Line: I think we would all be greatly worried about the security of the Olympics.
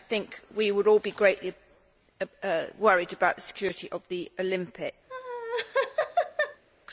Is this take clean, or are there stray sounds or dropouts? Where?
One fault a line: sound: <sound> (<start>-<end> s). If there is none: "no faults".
sound: laugh (5.1-6.6 s)